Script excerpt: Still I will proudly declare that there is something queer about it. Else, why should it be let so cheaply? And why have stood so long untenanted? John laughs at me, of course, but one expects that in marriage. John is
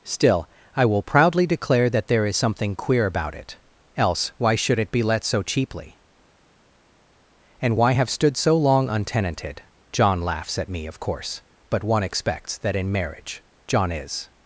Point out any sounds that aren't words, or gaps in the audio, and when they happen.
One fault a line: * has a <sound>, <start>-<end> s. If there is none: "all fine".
all fine